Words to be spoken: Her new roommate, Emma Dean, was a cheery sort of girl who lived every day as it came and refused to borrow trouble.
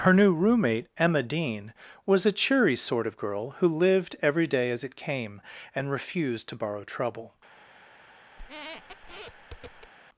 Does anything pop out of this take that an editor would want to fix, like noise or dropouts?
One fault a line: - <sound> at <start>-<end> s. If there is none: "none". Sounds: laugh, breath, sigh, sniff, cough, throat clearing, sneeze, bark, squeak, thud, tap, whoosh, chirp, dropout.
- squeak at 8.4-9.9 s